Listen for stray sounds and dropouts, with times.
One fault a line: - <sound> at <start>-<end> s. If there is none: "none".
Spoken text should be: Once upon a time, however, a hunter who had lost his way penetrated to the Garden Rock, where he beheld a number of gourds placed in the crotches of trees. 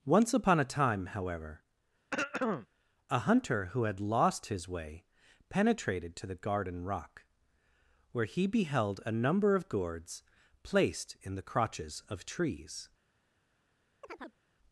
- throat clearing at 2.1-2.7 s
- chirp at 14.0-14.4 s